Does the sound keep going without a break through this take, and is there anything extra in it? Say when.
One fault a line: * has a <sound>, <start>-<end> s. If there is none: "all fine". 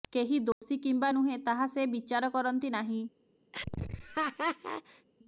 * has a dropout, 0.5-0.6 s
* has a laugh, 3.5-5.1 s